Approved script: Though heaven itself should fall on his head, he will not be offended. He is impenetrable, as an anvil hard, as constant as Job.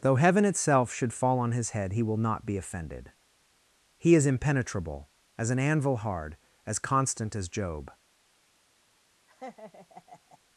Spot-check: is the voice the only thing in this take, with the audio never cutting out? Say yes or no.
no